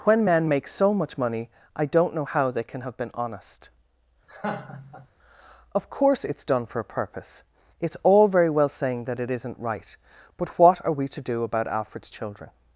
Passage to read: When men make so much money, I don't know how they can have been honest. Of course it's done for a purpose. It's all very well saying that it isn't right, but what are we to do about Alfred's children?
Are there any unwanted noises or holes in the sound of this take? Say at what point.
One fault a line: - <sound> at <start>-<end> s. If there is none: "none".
- laugh at 4.3-5.1 s